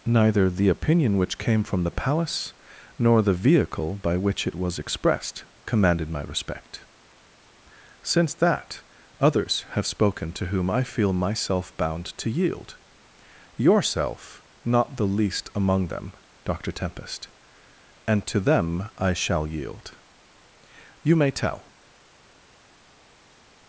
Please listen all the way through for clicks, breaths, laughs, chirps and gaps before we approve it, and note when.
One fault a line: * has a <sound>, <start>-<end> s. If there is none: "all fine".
all fine